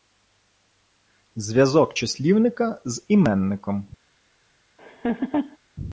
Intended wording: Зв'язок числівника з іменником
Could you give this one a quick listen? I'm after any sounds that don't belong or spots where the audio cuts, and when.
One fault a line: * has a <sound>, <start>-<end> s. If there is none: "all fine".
* has a laugh, 4.8-5.6 s